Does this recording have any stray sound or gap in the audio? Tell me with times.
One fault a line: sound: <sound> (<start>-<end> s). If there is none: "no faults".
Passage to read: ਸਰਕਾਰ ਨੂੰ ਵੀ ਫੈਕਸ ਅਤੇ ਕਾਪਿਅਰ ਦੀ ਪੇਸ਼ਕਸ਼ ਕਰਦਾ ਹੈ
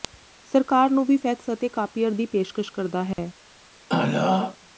sound: dropout (3.1-3.2 s)
sound: throat clearing (3.9-4.6 s)